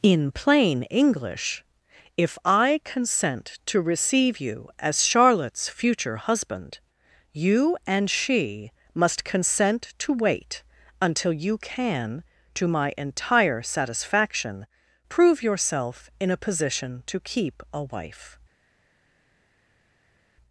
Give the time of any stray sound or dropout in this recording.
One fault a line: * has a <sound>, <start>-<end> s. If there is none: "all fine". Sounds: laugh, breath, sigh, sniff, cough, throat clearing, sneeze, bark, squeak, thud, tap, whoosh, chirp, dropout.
all fine